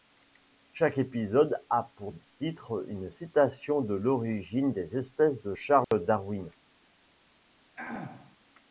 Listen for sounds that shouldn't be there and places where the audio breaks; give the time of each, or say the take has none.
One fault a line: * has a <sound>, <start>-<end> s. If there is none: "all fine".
* has a dropout, 5.8-5.9 s
* has a throat clearing, 7.8-8.4 s